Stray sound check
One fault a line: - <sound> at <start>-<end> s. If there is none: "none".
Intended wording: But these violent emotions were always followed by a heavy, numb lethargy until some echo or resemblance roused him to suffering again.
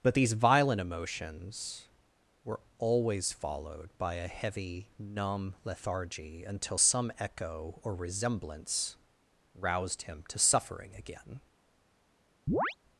- chirp at 12.5-12.8 s